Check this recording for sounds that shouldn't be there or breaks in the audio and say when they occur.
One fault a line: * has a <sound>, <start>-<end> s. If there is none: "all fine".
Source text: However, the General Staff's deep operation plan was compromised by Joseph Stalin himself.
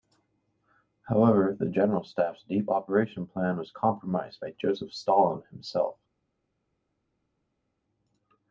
all fine